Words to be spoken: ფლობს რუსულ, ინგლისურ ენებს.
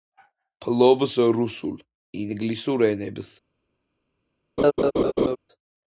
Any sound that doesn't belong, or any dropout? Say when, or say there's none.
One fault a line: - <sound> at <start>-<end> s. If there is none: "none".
- laugh at 4.6-5.4 s